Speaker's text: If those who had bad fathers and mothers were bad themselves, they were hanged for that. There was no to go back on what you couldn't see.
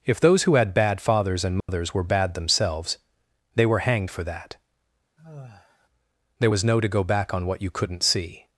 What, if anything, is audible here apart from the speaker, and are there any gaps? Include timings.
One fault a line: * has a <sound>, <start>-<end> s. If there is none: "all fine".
* has a dropout, 1.6-1.7 s
* has a sigh, 5.2-5.9 s